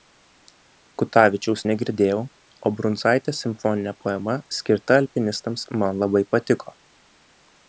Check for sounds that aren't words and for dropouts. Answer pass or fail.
pass